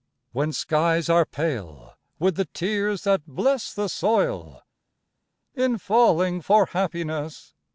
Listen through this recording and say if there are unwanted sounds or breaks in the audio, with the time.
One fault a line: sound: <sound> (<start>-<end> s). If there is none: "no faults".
no faults